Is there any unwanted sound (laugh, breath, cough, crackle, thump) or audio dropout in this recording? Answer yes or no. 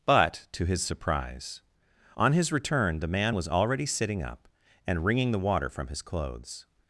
no